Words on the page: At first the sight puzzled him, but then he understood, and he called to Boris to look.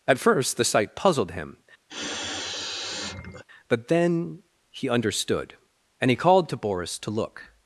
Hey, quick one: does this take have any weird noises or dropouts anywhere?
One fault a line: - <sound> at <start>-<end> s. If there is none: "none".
- sniff at 1.9-3.4 s